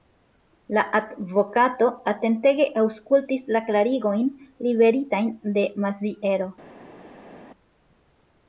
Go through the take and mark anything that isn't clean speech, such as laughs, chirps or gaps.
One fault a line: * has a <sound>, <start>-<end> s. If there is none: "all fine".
all fine